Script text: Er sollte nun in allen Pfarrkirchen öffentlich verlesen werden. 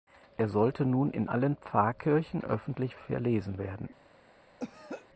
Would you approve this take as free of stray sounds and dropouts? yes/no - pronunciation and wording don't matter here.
no